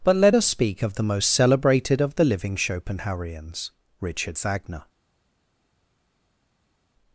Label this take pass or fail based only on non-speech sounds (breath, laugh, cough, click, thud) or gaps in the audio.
pass